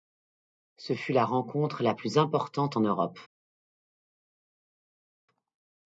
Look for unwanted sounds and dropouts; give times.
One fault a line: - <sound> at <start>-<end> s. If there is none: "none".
none